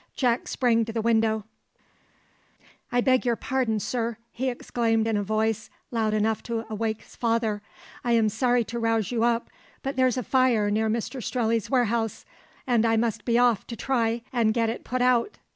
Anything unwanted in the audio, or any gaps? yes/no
no